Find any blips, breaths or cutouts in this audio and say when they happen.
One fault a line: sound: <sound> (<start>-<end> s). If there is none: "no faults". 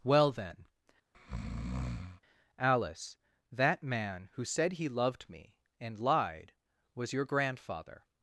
sound: breath (1.1-2.2 s)